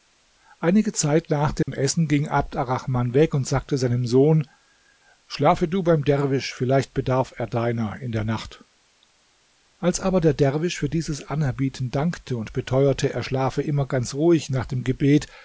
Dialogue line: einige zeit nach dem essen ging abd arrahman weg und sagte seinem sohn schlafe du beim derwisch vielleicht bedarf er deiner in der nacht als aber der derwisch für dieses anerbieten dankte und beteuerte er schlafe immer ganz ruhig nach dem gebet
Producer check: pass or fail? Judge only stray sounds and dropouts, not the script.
fail